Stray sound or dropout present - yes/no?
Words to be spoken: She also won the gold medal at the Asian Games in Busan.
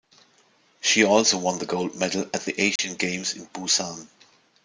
yes